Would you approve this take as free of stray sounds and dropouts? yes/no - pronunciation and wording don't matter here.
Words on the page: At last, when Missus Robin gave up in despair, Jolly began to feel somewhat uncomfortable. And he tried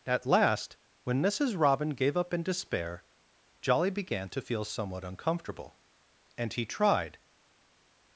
yes